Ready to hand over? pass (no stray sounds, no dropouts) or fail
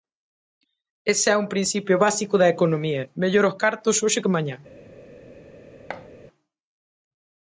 fail